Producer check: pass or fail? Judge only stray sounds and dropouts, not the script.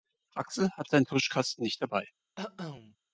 fail